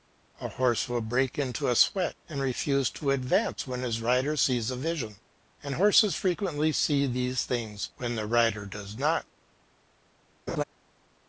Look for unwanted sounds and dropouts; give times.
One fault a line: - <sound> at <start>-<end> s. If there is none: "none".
- laugh at 10.5-10.6 s